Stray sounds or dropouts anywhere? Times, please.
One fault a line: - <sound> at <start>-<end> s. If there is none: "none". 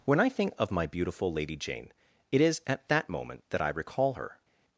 none